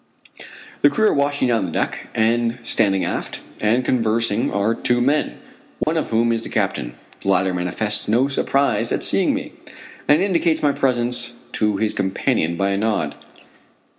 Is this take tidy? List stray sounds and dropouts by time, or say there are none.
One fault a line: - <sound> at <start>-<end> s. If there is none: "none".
- dropout at 5.8-5.9 s